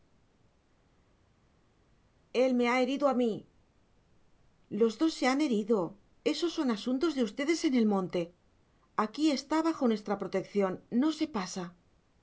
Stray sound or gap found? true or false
false